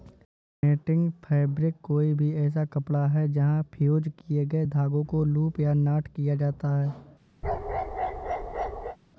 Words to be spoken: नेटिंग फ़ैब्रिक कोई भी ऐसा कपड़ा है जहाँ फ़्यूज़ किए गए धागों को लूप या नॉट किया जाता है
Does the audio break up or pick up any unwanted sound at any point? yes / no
yes